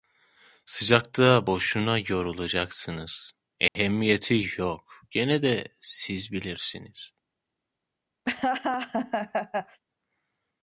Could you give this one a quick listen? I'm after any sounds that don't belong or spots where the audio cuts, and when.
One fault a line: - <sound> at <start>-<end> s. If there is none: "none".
- dropout at 3.7-3.8 s
- laugh at 8.2-9.8 s